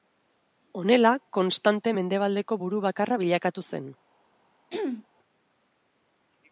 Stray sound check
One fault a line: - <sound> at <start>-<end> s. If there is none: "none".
- throat clearing at 4.7-5.1 s